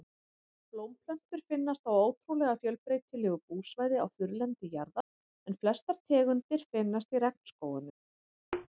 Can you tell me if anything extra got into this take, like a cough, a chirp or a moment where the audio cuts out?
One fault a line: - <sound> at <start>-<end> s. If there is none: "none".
- dropout at 5.0-5.1 s
- thud at 8.5-8.7 s